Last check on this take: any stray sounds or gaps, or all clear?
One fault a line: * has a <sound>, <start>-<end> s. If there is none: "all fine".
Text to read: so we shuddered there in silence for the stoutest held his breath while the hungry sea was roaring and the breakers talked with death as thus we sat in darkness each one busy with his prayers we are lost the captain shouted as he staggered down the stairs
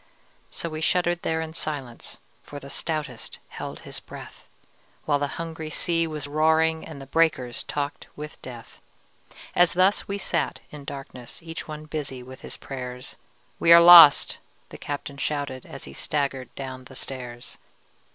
all fine